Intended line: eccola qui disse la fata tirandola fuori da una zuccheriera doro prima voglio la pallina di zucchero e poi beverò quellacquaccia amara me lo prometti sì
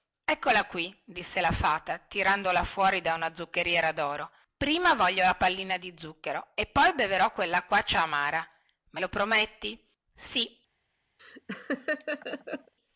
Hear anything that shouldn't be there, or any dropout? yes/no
yes